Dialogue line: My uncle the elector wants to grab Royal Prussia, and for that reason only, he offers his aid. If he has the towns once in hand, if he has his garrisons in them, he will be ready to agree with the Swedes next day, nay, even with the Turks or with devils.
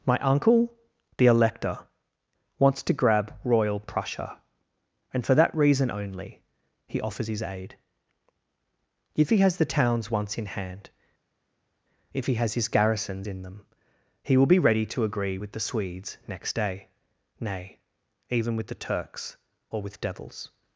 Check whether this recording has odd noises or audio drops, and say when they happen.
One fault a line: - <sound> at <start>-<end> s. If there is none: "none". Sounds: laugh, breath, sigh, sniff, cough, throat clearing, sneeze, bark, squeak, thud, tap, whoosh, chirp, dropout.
none